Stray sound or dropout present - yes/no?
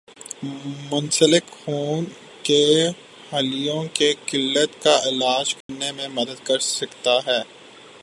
yes